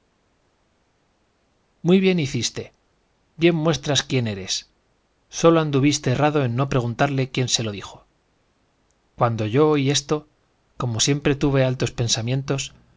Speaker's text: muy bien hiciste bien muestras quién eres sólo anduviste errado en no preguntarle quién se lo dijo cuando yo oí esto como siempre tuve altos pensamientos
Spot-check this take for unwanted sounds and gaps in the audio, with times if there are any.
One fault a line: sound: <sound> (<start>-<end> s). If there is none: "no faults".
no faults